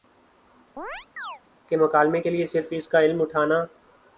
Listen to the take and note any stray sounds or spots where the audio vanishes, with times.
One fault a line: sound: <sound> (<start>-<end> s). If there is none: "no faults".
sound: chirp (0.8-1.4 s)